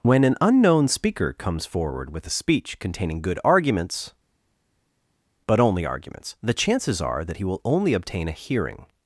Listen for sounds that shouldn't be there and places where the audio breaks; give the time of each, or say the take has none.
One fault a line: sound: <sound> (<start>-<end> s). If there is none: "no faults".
no faults